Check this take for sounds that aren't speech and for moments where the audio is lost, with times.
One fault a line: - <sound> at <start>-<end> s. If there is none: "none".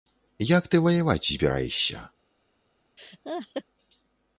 - laugh at 3.0-3.6 s